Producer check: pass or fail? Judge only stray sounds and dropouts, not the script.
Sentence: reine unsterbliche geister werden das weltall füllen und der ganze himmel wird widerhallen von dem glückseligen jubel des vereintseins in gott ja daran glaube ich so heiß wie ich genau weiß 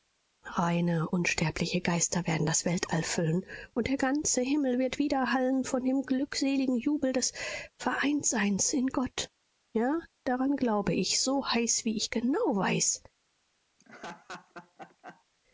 fail